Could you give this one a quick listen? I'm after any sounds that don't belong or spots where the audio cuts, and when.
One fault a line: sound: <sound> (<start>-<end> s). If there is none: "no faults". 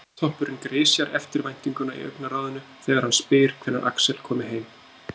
no faults